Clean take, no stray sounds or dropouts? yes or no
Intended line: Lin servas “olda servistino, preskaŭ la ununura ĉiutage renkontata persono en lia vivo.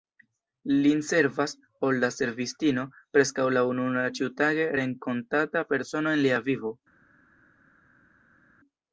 yes